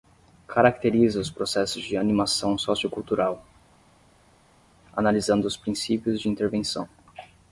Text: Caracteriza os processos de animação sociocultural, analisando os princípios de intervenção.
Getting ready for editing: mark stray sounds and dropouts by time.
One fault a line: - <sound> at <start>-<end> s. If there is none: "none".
none